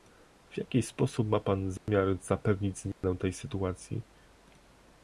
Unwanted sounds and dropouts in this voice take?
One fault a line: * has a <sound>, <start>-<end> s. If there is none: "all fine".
* has a dropout, 1.8-1.9 s
* has a dropout, 2.9-3.0 s